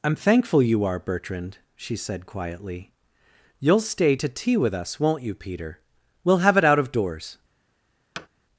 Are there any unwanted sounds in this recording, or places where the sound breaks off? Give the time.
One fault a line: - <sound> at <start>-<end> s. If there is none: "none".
- thud at 8.2-8.3 s